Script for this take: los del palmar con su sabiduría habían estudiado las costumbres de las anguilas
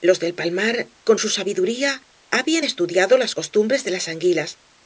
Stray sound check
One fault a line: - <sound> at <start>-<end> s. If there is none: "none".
none